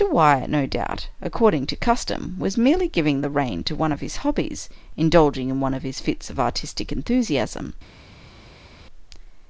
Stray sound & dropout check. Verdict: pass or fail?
pass